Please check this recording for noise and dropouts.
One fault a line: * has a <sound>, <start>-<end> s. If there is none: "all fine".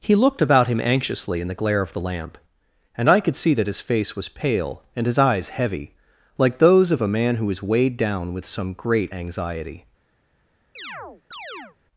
* has a chirp, 10.8-11.8 s